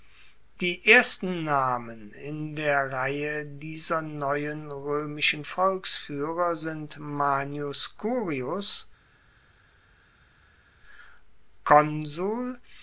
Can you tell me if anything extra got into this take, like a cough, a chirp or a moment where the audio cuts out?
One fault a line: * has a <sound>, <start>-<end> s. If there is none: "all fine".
all fine